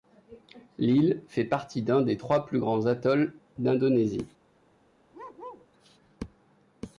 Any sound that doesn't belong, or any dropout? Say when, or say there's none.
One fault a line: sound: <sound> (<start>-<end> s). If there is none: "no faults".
sound: bark (5.1-5.7 s)